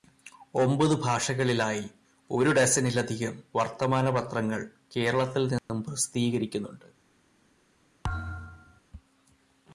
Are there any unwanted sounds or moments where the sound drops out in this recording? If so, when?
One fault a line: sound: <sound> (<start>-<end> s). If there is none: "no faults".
sound: dropout (5.6-5.7 s)
sound: thud (8.0-8.8 s)